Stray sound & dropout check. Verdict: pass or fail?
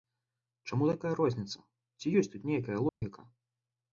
fail